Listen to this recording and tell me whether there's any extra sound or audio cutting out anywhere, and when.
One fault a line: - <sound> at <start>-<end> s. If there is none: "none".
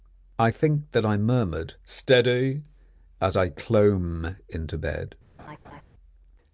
- laugh at 5.4-5.8 s